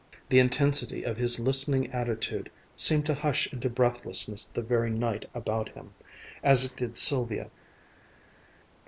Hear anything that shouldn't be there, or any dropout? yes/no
no